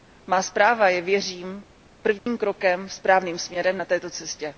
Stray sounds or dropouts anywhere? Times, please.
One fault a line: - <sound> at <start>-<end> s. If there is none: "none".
- dropout at 2.2-2.3 s